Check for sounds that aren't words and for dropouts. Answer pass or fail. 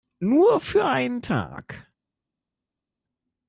pass